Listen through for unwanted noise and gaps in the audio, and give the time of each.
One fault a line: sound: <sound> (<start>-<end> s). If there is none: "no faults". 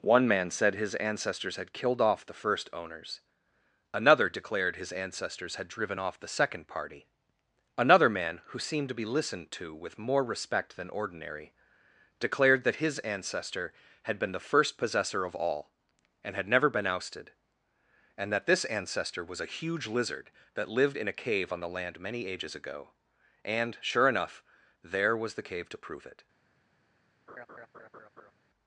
sound: laugh (27.3-28.3 s)